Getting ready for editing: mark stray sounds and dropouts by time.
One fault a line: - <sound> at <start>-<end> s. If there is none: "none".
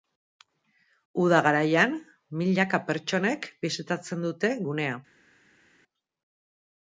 none